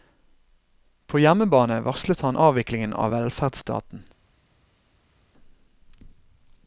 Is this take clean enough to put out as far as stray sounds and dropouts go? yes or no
yes